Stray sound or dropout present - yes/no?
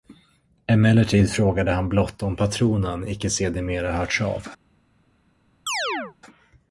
yes